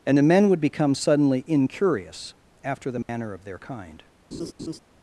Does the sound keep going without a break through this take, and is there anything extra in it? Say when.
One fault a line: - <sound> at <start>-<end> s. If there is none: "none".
- dropout at 3.0-3.1 s
- laugh at 4.3-4.8 s